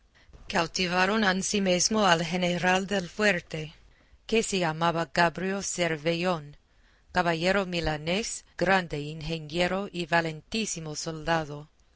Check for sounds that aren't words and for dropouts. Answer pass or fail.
pass